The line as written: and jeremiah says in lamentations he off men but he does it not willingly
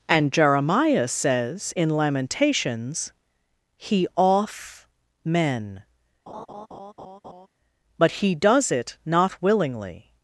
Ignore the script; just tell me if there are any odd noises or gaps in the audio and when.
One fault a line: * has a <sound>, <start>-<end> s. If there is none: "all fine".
* has a laugh, 6.3-7.5 s